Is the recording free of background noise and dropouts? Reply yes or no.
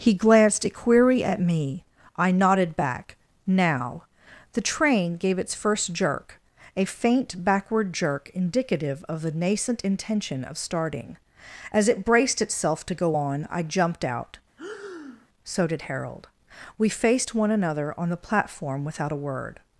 no